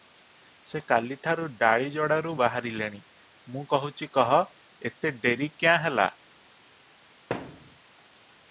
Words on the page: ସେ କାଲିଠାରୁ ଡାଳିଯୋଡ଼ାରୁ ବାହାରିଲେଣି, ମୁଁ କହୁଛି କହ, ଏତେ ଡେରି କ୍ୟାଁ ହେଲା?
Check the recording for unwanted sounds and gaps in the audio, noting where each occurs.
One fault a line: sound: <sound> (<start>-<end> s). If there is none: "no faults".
sound: thud (7.3-7.8 s)